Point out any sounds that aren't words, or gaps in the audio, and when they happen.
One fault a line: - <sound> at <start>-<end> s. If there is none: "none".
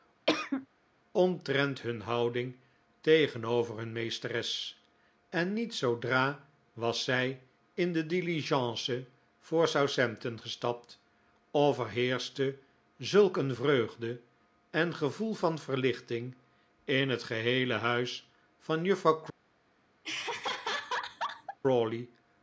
- cough at 0.3-0.7 s
- laugh at 20.0-21.6 s